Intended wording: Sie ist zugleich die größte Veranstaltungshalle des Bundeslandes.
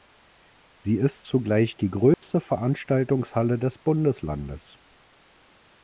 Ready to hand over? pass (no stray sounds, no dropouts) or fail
fail